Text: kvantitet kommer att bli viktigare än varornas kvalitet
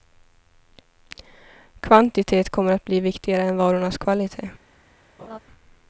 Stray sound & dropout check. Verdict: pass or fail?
fail